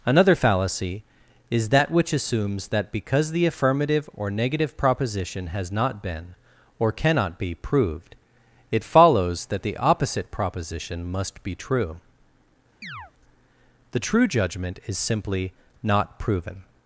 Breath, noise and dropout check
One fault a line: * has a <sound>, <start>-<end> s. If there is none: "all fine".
* has a chirp, 12.8-13.1 s